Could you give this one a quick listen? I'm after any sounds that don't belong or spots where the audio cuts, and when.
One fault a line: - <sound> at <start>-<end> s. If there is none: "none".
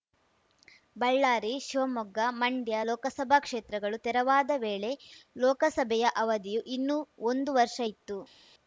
none